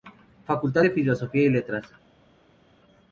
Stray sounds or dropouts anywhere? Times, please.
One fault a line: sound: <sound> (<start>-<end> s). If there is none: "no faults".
no faults